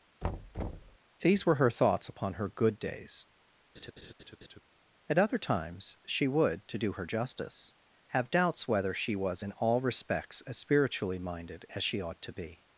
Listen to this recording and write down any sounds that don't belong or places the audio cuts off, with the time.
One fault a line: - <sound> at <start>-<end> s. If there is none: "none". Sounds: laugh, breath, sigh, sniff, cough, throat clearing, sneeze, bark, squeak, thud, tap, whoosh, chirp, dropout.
- thud at 0.2-1.0 s
- laugh at 3.7-4.6 s